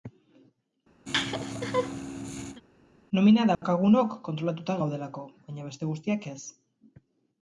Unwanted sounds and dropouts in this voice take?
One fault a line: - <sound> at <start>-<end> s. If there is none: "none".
- laugh at 1.1-2.6 s
- dropout at 3.5-3.6 s